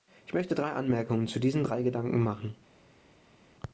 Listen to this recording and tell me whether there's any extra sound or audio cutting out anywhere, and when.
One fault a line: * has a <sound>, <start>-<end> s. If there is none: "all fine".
all fine